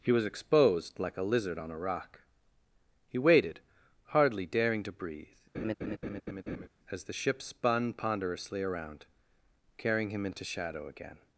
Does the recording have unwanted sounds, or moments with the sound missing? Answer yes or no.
yes